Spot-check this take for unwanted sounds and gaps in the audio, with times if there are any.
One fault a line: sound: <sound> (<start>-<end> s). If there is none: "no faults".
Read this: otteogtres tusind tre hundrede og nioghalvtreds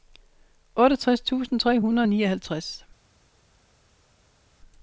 no faults